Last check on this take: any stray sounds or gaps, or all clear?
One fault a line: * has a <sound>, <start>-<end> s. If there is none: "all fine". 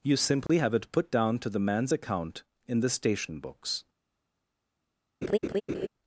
* has a dropout, 0.5-0.5 s
* has a laugh, 5.2-5.9 s